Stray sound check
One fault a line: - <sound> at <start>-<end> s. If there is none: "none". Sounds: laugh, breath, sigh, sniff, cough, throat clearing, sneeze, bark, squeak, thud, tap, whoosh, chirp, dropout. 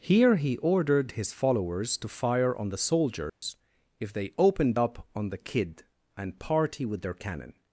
- dropout at 3.3-3.4 s